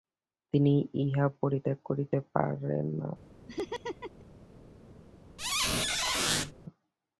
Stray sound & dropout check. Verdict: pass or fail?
fail